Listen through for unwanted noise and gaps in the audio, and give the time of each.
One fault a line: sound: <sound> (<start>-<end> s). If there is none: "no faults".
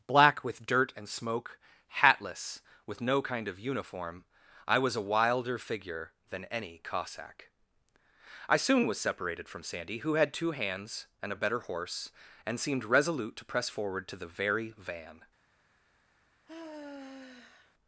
sound: sigh (16.5-17.7 s)